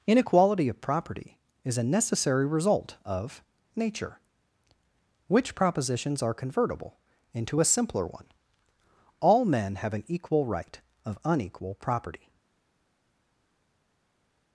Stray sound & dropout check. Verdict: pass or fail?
pass